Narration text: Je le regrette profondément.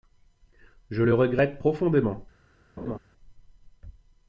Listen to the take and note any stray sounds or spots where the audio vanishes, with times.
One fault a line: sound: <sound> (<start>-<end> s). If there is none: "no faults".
sound: laugh (2.8-3.0 s)